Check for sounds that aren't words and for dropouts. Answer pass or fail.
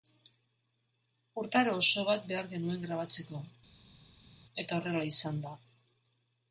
pass